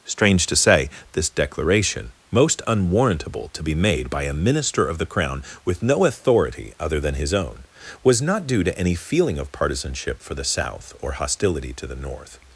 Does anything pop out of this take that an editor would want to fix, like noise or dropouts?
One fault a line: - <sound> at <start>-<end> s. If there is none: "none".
none